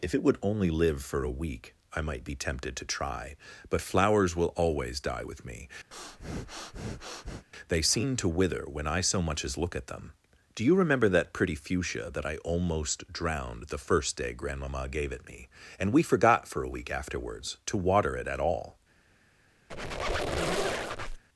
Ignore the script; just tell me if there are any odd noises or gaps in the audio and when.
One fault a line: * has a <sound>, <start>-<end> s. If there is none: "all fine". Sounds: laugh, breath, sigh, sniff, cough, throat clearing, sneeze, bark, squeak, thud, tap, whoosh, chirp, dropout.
* has a breath, 5.9-7.5 s
* has a squeak, 19.7-21.2 s